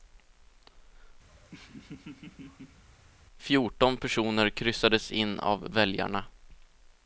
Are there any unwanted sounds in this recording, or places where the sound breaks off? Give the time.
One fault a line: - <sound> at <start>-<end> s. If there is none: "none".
- laugh at 1.3-2.8 s